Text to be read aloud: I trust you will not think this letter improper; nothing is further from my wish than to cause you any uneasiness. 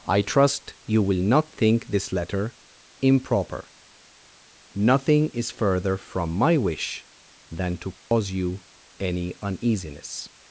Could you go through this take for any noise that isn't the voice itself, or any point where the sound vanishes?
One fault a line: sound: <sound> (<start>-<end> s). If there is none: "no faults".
sound: dropout (8.0-8.1 s)